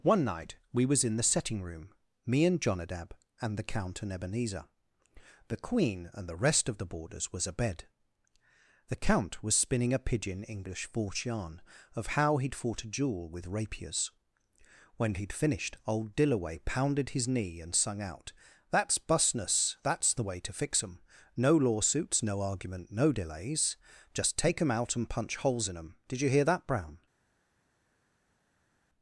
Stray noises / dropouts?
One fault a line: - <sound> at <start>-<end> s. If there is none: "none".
none